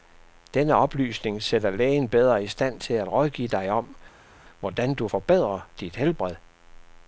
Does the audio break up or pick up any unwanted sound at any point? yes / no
no